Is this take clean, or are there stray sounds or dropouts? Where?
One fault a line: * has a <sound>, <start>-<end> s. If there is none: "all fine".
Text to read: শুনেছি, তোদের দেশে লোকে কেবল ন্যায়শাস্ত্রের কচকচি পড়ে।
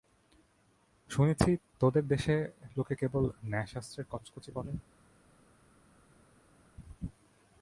all fine